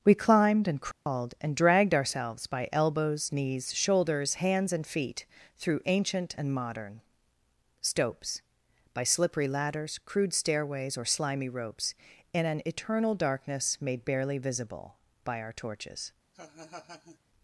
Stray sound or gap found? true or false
true